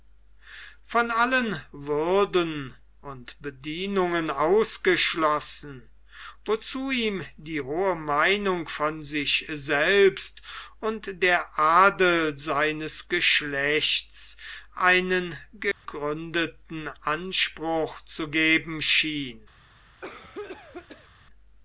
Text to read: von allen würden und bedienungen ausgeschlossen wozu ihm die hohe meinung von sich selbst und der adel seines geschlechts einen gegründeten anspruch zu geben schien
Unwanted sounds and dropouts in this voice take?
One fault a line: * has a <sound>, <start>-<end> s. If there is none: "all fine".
* has a dropout, 15.7-15.9 s
* has a cough, 20.0-21.1 s